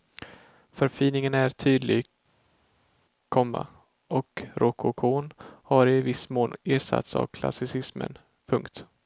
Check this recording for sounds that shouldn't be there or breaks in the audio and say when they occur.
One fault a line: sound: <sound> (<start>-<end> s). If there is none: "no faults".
no faults